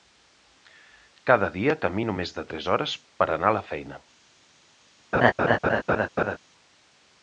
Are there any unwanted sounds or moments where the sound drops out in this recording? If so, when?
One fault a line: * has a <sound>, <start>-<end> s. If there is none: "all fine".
* has a laugh, 5.1-6.4 s